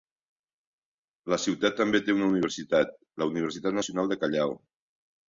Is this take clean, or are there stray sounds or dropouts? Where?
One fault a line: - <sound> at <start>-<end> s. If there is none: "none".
none